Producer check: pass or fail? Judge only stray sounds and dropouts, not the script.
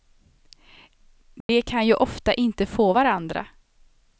fail